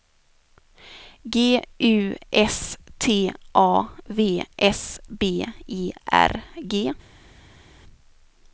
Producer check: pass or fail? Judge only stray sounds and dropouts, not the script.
pass